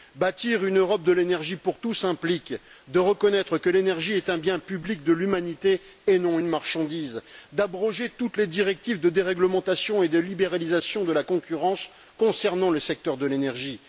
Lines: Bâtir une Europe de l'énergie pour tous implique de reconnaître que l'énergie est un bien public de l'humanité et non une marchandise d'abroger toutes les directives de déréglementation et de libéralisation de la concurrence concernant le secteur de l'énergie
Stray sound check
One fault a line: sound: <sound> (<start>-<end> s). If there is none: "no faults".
no faults